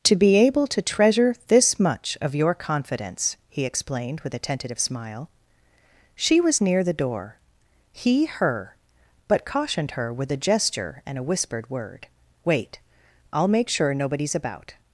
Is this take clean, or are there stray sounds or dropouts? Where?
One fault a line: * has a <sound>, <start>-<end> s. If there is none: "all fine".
all fine